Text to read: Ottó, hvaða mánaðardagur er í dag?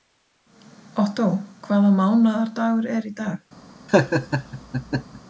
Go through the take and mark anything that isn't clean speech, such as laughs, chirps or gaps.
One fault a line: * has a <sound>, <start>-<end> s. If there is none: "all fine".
* has a laugh, 3.9-5.2 s